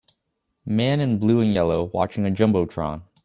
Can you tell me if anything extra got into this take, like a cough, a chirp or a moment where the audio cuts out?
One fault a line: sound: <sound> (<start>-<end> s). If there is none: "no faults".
no faults